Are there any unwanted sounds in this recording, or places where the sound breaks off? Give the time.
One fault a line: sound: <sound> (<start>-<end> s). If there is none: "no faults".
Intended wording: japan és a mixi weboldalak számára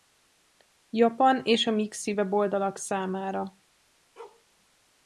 sound: bark (4.2-4.5 s)